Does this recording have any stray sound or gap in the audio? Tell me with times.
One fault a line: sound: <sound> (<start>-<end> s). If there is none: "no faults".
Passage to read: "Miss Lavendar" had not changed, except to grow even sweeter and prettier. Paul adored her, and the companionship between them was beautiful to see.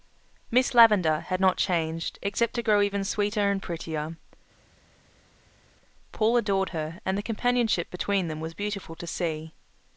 no faults